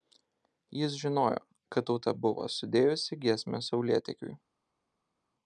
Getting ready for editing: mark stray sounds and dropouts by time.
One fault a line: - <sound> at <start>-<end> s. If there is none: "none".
none